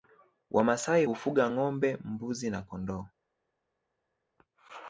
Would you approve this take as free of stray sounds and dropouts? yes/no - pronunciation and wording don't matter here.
yes